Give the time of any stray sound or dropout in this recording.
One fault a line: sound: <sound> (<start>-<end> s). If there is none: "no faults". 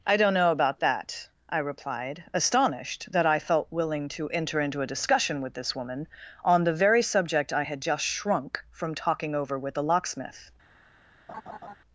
sound: laugh (11.3-11.8 s)